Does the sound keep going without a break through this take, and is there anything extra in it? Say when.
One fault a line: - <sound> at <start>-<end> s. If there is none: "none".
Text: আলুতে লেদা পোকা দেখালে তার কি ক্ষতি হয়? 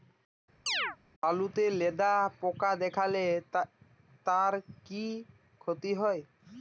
- chirp at 0.7-1.0 s